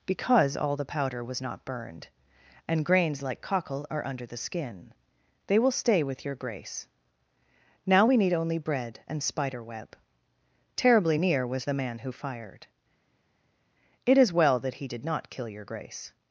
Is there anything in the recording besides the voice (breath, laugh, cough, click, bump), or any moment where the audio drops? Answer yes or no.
no